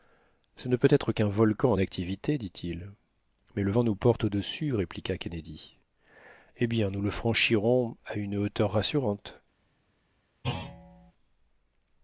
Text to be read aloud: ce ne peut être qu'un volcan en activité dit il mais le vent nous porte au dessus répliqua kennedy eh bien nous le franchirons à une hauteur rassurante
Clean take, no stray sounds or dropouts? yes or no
no